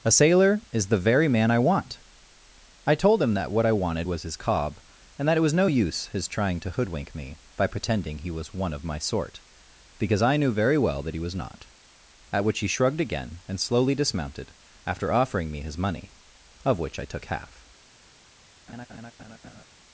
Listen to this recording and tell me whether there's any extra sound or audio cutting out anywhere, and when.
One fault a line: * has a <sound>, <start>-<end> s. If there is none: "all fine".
* has a laugh, 18.7-19.6 s